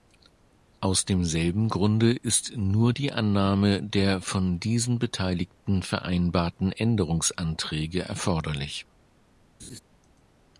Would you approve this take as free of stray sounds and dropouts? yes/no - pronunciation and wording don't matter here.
no